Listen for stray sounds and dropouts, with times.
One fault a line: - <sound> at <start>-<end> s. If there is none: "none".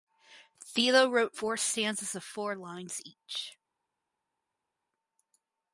none